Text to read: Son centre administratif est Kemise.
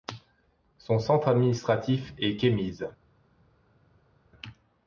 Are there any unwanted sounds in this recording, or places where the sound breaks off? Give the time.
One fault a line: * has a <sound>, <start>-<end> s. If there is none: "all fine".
all fine